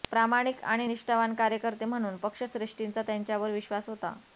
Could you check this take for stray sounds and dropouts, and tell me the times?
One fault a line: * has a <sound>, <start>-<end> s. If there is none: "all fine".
all fine